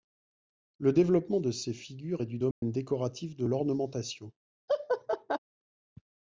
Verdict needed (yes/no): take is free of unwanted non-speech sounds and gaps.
no